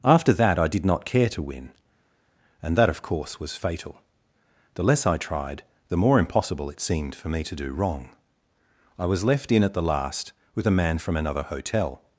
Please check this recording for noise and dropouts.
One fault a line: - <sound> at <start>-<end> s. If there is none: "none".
none